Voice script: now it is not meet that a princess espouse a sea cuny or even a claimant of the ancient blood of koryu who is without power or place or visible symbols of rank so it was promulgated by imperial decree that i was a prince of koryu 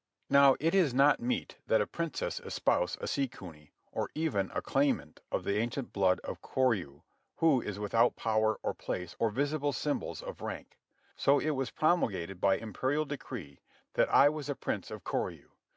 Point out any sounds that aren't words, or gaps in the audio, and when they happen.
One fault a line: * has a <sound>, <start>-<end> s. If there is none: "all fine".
all fine